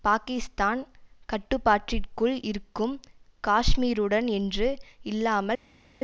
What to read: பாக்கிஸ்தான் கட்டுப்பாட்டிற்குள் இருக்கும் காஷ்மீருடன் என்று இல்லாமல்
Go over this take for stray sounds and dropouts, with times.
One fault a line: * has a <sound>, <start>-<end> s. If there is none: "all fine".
all fine